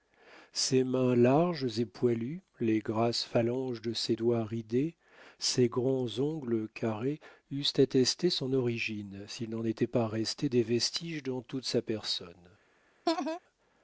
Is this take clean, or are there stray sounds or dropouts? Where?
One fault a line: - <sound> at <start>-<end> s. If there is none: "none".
- laugh at 13.1-13.4 s